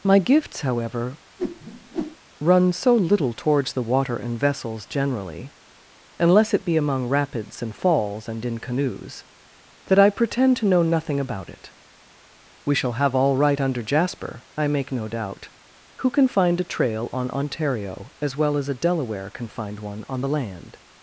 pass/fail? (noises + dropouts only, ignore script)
fail